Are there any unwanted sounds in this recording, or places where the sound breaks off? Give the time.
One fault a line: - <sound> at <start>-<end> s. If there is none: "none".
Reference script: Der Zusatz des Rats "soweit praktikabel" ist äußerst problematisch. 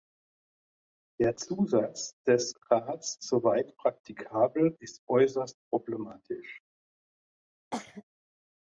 - cough at 7.7-8.0 s